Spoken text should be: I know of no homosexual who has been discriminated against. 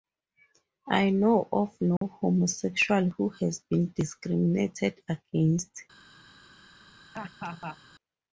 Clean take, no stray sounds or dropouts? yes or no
no